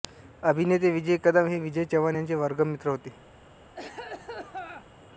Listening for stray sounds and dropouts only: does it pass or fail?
fail